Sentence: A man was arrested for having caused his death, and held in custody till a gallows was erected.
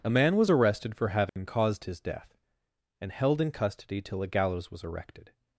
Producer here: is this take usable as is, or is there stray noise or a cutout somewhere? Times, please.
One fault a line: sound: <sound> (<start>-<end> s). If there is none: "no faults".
sound: dropout (1.3-1.4 s)